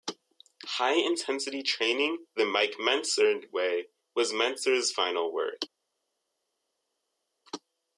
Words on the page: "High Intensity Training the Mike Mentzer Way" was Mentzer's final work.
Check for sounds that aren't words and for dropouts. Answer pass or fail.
pass